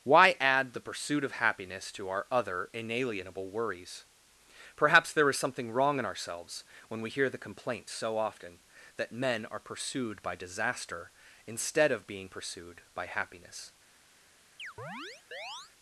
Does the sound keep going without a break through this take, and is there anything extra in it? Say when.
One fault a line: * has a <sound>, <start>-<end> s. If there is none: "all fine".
* has a chirp, 14.6-15.7 s